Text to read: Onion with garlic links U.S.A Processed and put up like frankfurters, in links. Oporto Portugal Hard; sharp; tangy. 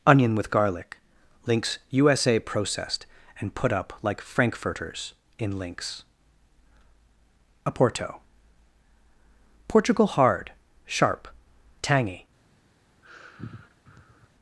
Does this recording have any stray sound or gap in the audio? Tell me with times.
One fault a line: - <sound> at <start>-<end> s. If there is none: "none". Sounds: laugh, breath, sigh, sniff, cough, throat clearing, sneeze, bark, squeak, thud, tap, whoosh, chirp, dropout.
- sigh at 13.0-14.3 s